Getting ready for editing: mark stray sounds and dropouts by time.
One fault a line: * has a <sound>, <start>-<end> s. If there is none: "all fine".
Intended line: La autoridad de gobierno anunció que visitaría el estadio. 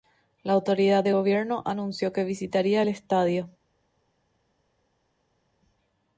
all fine